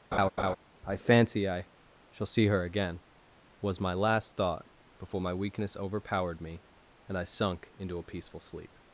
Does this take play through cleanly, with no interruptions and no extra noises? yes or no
no